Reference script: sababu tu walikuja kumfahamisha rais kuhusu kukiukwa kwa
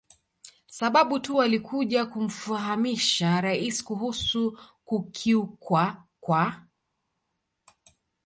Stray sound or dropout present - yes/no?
no